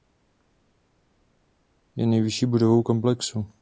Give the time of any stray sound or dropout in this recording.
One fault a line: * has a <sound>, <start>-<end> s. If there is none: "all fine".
all fine